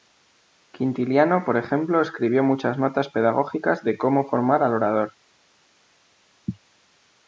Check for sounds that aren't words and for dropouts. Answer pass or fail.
pass